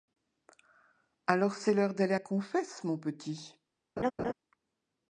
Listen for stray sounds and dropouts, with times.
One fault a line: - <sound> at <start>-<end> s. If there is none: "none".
- laugh at 4.0-4.3 s